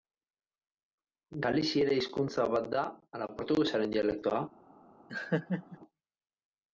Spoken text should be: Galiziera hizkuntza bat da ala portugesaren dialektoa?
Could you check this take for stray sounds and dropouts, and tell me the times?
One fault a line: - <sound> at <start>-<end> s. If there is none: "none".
- laugh at 5.1-5.8 s